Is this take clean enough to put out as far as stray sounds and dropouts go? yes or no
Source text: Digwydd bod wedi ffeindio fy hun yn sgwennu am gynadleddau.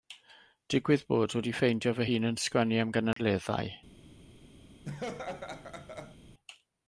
no